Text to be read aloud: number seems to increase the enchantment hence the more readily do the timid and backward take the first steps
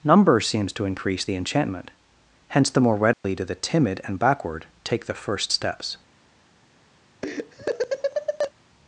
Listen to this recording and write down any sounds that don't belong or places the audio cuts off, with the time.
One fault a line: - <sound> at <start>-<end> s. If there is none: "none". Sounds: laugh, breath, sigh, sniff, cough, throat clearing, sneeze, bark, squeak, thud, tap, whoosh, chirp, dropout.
- dropout at 3.1-3.2 s
- laugh at 7.2-8.5 s